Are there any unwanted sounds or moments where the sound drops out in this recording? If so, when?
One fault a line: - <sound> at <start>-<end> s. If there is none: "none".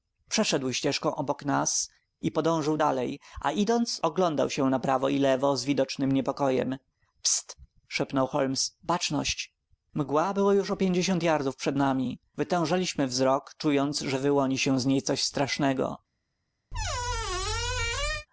- squeak at 16.7-18.3 s